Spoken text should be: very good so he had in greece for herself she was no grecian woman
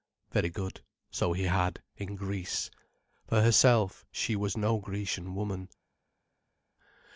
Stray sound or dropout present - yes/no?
no